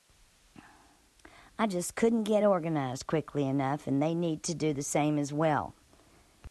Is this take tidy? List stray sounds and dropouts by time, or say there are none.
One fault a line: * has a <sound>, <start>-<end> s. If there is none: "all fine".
all fine